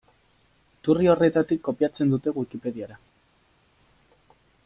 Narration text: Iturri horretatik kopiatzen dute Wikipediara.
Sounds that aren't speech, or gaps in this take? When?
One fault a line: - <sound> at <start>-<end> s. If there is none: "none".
none